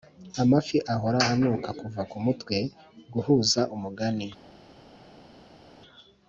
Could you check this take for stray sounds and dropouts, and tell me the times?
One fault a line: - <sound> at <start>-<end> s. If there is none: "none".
none